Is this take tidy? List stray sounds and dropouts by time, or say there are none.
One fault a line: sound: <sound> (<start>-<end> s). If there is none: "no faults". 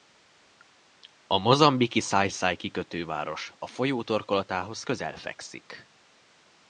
no faults